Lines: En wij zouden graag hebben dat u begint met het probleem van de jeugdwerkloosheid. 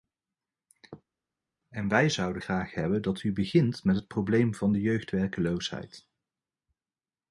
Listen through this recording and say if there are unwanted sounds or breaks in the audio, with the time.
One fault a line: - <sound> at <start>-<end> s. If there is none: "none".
none